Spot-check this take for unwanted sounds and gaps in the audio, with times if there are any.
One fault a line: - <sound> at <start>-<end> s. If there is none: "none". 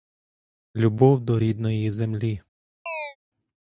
- chirp at 2.9-3.2 s